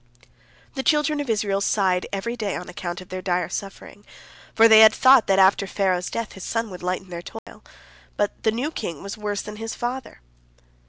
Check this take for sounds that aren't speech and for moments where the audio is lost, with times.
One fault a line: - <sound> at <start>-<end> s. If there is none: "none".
- dropout at 7.4-7.5 s